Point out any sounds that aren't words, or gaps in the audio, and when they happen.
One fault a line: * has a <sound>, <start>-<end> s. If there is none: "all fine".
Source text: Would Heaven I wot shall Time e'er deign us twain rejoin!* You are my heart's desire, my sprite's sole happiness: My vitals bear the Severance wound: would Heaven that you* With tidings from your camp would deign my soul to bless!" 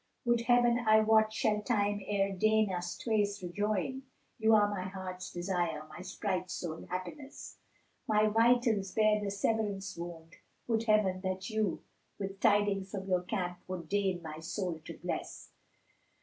all fine